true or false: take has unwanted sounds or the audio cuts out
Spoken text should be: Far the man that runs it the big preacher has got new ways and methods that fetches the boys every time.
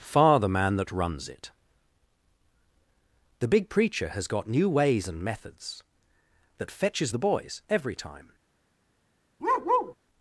true